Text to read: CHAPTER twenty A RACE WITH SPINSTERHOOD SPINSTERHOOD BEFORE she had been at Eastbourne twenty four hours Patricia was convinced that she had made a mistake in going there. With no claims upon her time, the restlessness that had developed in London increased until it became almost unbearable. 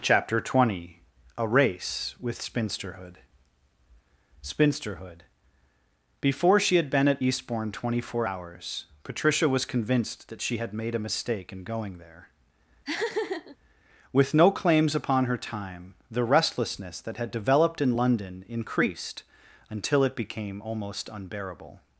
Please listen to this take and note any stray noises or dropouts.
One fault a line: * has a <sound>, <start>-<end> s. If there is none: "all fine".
* has a laugh, 12.8-13.6 s